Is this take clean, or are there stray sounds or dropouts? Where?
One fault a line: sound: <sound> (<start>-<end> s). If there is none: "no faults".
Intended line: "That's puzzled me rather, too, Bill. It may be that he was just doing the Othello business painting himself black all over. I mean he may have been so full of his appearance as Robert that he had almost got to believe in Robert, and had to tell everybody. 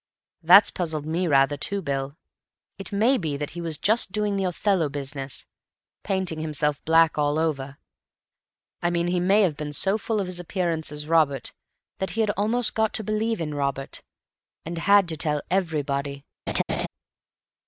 sound: laugh (16.5-16.9 s)